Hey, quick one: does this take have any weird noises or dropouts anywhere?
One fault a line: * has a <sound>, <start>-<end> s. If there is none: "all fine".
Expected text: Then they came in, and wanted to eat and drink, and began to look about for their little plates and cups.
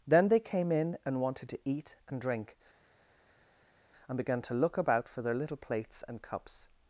all fine